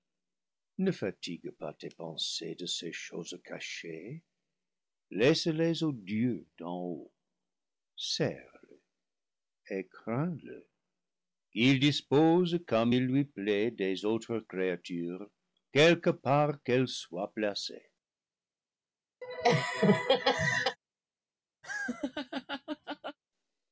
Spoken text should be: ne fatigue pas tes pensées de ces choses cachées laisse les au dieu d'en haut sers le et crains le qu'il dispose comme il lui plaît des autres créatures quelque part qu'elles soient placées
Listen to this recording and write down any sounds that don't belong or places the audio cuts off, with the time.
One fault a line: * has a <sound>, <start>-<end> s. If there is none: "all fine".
* has a laugh, 19.2-20.8 s
* has a laugh, 21.6-23.2 s